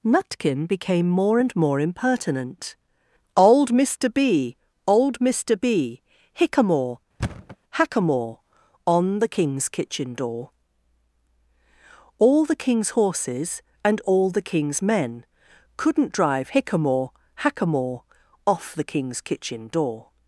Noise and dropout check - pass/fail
fail